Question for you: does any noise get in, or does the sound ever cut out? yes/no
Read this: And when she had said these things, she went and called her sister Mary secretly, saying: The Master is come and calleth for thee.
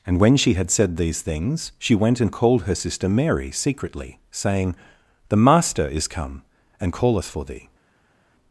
no